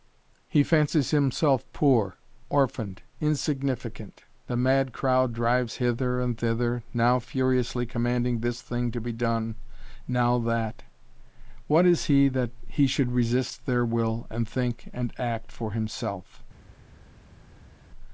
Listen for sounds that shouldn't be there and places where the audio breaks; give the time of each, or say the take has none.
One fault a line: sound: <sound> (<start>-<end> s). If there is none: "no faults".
no faults